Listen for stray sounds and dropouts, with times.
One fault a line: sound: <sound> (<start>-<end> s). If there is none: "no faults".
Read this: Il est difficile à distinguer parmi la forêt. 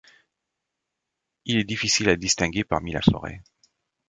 no faults